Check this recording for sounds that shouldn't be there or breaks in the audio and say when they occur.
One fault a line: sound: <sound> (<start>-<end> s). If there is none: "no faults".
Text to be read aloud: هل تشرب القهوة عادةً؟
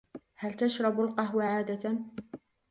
no faults